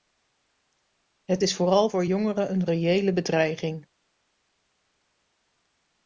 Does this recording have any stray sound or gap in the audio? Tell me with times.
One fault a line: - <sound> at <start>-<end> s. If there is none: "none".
none